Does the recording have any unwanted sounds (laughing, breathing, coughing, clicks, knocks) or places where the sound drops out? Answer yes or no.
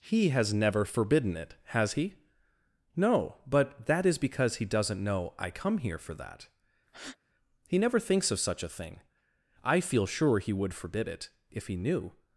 yes